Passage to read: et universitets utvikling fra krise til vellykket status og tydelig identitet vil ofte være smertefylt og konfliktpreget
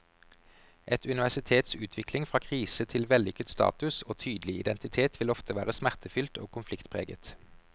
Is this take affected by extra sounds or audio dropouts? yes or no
no